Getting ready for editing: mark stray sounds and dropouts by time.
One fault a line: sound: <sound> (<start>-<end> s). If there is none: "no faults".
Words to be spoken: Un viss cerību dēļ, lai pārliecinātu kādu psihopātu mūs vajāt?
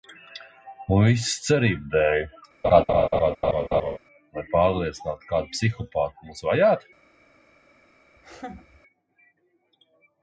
sound: laugh (2.6-4.0 s)
sound: laugh (8.2-8.8 s)